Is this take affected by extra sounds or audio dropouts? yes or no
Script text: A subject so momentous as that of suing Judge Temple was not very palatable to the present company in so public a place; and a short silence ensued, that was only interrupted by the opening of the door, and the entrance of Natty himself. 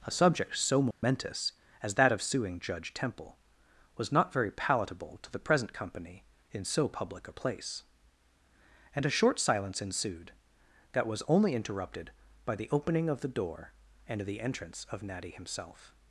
yes